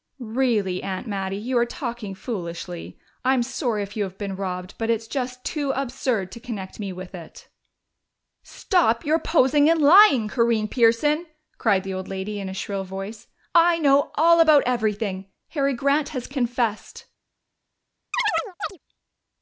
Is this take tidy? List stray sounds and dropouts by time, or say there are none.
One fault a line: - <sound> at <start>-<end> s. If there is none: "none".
- chirp at 18.1-18.8 s